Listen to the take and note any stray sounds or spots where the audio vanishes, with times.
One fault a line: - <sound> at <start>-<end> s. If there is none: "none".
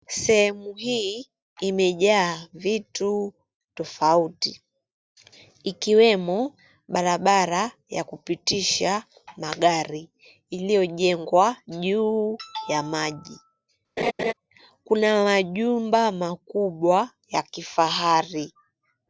- laugh at 14.0-14.3 s